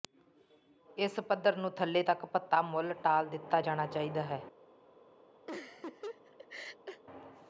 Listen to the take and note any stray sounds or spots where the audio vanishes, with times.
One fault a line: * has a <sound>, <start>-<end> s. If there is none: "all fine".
* has a laugh, 5.5-7.0 s